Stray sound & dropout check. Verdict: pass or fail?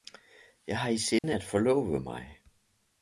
fail